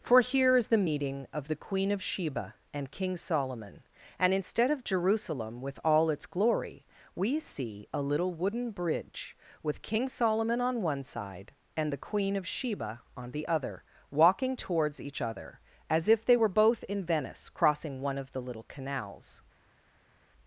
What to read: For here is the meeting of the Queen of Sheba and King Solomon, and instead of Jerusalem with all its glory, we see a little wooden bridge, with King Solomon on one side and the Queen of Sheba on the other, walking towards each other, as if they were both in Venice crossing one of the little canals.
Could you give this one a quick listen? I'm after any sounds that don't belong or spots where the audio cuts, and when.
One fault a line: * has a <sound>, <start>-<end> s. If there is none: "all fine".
all fine